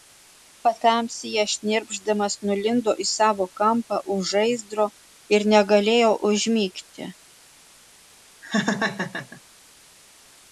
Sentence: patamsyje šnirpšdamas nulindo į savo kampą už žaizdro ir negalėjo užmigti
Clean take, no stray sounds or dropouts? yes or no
no